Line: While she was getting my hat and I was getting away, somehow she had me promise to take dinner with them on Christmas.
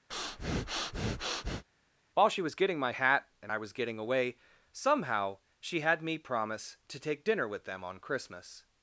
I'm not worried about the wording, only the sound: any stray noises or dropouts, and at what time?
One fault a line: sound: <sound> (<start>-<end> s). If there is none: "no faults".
sound: breath (0.1-1.6 s)